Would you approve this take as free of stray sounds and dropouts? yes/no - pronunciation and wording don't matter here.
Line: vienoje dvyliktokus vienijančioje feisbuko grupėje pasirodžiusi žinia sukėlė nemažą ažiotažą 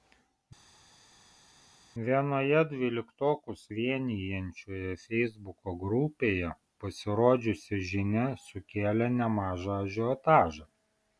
yes